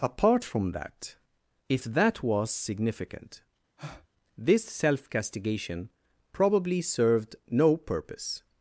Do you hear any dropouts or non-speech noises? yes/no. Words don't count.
yes